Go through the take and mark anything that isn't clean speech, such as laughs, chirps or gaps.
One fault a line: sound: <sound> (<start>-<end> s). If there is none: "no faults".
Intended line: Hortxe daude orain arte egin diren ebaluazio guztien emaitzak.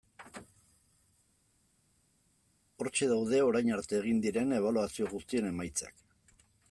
no faults